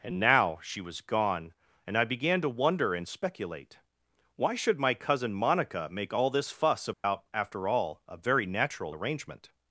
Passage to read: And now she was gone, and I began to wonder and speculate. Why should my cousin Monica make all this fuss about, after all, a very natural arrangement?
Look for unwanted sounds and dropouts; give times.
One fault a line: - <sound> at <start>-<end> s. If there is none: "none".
- dropout at 6.9-7.0 s